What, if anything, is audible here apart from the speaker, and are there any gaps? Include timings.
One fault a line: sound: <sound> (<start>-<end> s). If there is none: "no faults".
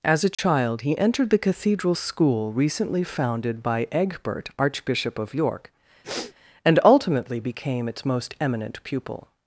sound: dropout (0.3-0.4 s)
sound: sniff (6.0-6.3 s)